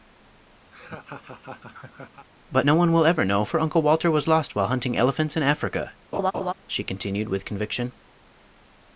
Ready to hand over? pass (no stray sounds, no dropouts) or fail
fail